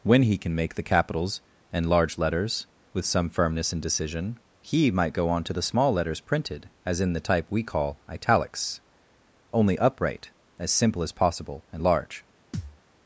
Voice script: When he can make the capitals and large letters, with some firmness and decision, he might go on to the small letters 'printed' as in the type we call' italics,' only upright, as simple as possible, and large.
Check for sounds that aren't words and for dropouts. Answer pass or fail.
fail